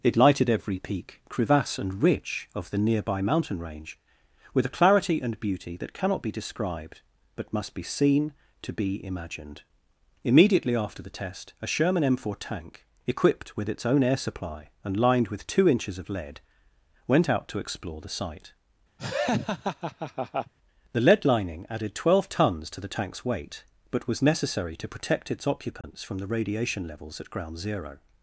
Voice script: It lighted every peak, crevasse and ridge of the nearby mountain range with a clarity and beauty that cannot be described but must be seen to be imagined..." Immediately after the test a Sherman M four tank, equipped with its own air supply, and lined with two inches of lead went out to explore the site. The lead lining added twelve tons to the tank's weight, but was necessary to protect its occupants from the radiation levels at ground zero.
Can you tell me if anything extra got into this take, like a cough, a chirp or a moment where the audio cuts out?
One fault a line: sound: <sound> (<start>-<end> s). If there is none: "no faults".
sound: laugh (19.0-20.5 s)
sound: dropout (25.8-25.8 s)